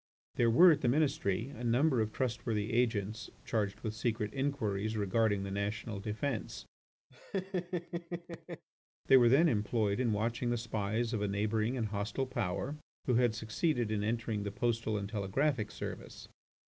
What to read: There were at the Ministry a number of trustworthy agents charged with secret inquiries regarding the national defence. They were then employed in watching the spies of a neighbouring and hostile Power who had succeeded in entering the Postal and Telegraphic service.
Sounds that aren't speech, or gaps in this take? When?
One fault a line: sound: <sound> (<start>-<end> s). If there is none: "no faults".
sound: laugh (7.1-8.6 s)